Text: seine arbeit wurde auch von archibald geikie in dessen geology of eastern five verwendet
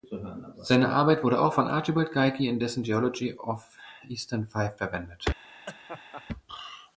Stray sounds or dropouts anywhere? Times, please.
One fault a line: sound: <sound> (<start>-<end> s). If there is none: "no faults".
sound: laugh (5.7-6.2 s)